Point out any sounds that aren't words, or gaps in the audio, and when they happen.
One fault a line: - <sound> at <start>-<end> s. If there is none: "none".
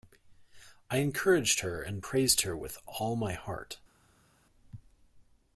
none